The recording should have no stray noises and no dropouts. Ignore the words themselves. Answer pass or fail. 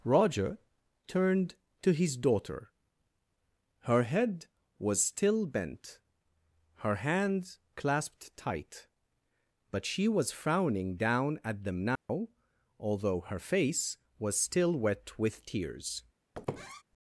fail